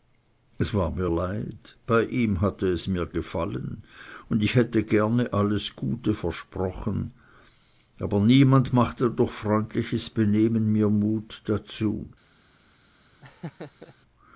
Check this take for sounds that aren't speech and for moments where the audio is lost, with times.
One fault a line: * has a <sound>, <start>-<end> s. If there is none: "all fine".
* has a laugh, 13.2-13.9 s